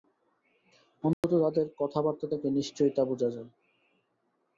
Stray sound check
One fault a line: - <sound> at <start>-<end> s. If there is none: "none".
- dropout at 1.1-1.2 s